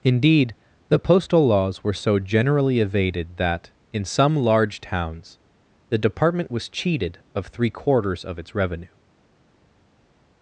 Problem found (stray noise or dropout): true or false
false